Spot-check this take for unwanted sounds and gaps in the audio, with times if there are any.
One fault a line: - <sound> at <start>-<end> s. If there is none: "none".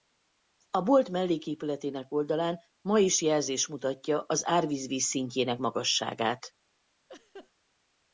- laugh at 7.1-7.5 s